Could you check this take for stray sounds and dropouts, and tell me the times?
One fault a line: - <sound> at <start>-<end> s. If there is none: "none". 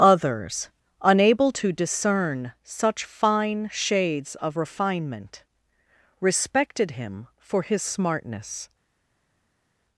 none